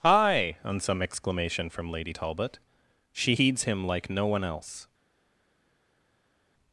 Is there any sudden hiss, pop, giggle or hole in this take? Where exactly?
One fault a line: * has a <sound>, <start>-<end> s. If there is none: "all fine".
all fine